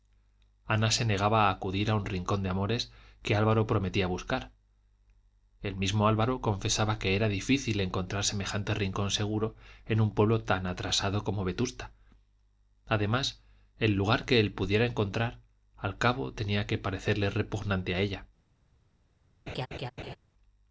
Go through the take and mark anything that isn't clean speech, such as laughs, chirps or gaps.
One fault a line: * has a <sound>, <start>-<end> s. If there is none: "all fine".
* has a laugh, 19.5-20.2 s